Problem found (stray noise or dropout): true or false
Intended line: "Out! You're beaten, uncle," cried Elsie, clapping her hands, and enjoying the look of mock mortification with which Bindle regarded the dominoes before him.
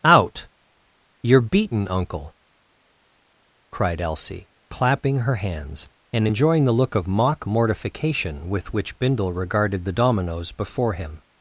false